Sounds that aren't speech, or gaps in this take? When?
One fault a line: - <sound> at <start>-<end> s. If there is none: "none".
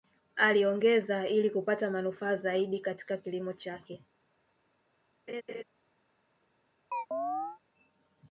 - laugh at 5.3-5.6 s
- chirp at 6.9-7.6 s